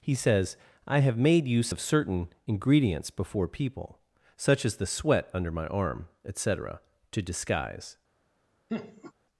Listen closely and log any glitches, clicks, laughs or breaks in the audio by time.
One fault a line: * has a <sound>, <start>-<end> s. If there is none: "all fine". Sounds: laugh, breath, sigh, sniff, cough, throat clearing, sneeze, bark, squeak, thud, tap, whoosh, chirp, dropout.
* has a laugh, 8.7-9.1 s